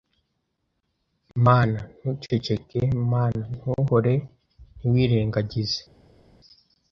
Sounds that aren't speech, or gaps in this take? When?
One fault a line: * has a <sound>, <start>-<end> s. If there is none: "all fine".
all fine